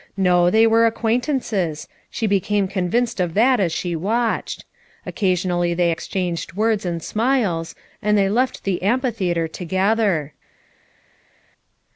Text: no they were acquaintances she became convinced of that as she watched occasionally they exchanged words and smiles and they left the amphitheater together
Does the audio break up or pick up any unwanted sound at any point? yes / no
no